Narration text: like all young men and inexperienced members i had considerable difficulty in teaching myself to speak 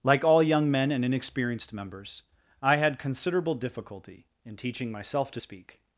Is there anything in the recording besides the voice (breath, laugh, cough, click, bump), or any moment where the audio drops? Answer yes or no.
no